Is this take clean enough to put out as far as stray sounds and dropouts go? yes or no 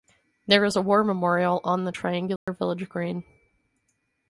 no